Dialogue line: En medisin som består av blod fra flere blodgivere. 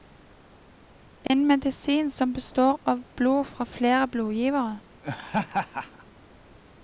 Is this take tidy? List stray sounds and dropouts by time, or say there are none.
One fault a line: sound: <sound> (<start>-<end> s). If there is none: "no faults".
sound: dropout (1.3-1.3 s)
sound: laugh (5.0-6.0 s)